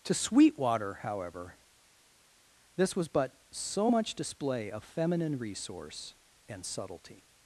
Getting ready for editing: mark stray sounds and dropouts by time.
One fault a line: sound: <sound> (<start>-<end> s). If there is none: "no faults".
no faults